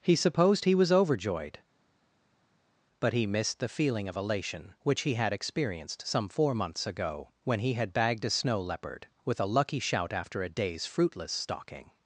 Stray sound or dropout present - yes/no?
no